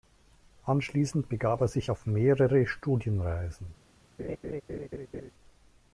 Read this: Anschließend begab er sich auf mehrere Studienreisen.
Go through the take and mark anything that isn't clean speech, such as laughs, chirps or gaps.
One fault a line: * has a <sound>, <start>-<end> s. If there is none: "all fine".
* has a laugh, 4.2-5.3 s